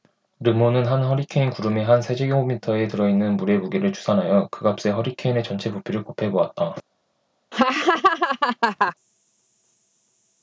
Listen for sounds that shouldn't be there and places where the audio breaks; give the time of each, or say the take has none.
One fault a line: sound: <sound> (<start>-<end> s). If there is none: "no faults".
sound: laugh (7.5-8.9 s)